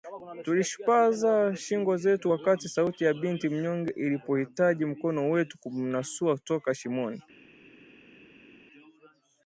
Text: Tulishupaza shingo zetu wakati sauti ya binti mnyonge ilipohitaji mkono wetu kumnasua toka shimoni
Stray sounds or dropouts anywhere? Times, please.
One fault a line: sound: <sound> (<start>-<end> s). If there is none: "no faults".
no faults